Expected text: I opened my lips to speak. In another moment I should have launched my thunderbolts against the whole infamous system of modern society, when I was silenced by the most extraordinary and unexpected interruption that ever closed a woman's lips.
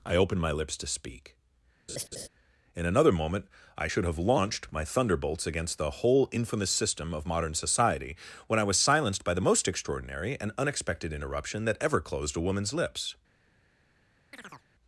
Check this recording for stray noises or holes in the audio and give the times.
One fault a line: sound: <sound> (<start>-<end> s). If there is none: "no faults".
sound: laugh (1.9-2.3 s)
sound: chirp (14.3-14.7 s)